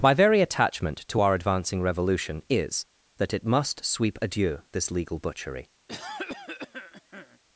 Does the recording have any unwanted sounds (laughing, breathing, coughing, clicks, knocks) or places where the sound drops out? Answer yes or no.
yes